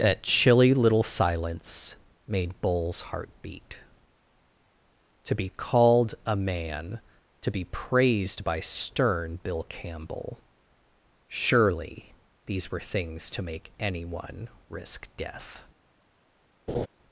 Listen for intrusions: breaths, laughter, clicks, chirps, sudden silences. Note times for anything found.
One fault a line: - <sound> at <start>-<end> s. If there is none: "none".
- laugh at 16.7-16.9 s